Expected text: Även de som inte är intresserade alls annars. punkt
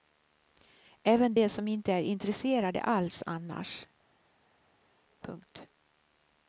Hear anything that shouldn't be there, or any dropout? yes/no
no